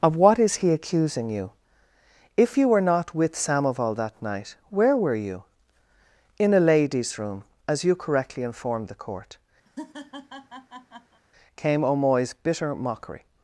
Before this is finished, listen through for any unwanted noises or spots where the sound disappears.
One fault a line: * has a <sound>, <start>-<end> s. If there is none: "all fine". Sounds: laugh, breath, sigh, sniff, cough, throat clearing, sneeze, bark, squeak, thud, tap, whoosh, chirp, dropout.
* has a laugh, 9.7-11.2 s